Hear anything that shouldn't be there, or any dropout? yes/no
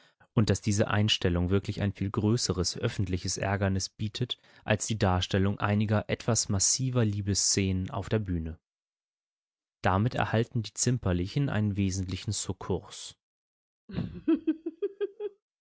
yes